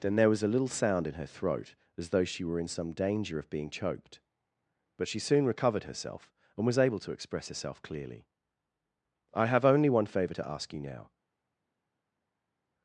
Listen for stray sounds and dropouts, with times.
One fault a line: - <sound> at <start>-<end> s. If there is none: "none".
none